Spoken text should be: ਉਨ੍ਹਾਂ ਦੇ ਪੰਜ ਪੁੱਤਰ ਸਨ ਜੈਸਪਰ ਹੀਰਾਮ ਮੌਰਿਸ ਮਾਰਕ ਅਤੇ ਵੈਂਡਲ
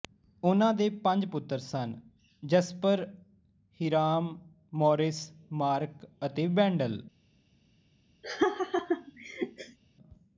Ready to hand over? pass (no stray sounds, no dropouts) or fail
fail